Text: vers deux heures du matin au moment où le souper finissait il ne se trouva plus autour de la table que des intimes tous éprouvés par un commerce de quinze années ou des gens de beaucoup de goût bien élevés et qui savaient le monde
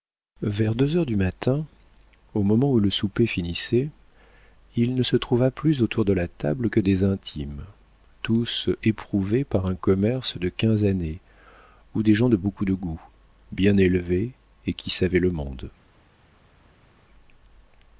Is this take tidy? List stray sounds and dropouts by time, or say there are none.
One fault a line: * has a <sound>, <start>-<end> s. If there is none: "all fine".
all fine